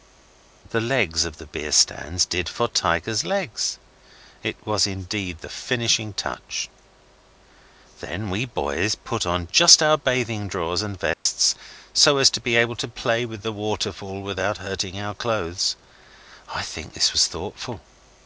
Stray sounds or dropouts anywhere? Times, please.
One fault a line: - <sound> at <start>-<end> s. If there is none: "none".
- dropout at 11.1-11.3 s